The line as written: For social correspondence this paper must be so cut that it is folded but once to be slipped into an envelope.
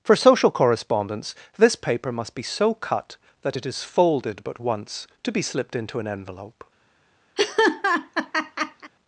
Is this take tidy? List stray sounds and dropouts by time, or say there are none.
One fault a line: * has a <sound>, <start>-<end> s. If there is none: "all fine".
* has a laugh, 7.4-8.9 s